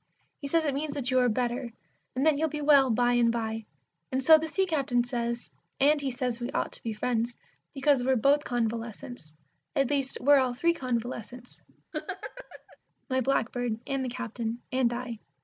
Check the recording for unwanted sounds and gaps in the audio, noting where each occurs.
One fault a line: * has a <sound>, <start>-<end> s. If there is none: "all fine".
* has a laugh, 11.9-12.8 s